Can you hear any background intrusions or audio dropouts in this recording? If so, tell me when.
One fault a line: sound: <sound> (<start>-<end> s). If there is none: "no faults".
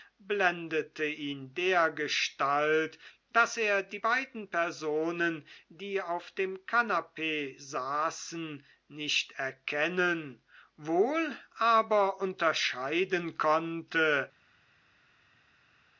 no faults